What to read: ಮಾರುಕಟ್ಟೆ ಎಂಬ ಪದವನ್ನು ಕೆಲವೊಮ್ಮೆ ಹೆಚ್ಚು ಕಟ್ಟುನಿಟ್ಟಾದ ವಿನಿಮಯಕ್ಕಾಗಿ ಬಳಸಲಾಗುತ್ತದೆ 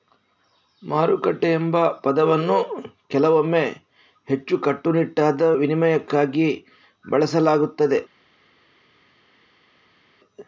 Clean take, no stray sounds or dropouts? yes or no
yes